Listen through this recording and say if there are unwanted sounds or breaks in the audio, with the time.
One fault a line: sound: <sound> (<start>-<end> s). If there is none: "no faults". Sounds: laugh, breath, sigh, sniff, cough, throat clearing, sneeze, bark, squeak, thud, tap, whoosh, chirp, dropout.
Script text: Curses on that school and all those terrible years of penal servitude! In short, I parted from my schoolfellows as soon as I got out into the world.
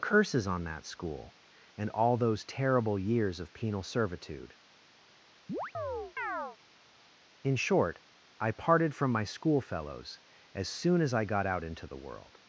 sound: chirp (5.5-6.6 s)